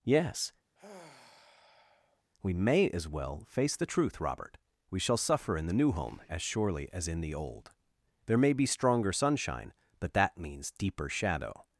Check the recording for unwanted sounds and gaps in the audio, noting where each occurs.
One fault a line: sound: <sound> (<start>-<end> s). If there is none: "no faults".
sound: sigh (0.8-2.2 s)